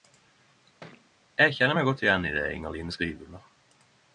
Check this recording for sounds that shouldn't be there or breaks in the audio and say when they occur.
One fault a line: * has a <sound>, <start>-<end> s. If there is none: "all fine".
* has a thud, 0.8-1.1 s